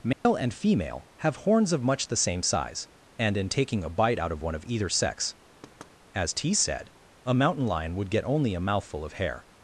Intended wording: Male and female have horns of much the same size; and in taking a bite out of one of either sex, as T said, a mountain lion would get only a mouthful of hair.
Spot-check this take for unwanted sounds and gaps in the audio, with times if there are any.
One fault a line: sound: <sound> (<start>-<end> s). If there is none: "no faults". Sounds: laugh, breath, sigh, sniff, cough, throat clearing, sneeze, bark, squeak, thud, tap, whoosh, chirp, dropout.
sound: dropout (0.1-0.3 s)
sound: thud (5.6-6.0 s)